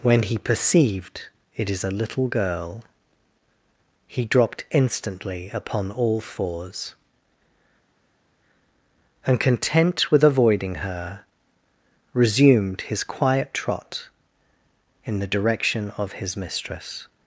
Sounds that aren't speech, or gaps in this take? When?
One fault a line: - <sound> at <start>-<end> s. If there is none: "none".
none